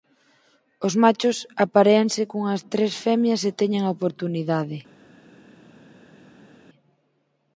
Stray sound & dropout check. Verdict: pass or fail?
pass